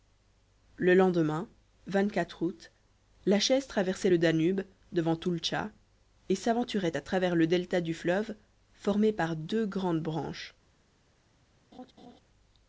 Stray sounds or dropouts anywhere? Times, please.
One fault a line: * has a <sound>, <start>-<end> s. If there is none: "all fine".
* has a laugh, 11.7-12.2 s